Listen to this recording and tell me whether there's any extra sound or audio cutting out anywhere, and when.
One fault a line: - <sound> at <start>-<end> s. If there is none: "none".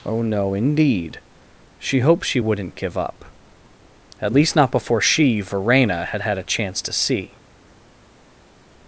none